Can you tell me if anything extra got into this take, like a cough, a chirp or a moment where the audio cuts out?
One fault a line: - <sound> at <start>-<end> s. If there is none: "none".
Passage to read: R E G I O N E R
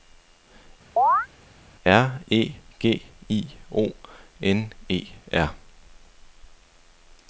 - chirp at 1.0-1.3 s